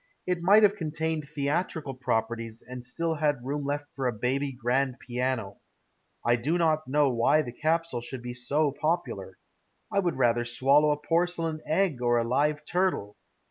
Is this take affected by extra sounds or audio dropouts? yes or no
no